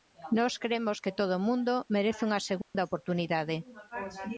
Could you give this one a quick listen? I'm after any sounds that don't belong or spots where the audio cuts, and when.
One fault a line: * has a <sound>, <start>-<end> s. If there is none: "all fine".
* has a dropout, 2.6-2.7 s